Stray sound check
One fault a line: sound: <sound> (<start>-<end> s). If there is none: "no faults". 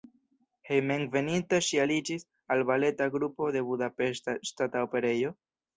no faults